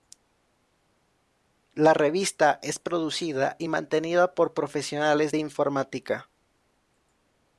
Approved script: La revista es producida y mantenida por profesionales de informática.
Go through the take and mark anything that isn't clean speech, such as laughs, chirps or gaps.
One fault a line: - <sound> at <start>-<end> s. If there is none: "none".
none